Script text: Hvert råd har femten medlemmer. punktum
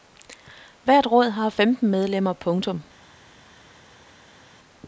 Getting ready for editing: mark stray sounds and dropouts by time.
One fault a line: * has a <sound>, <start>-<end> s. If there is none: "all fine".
all fine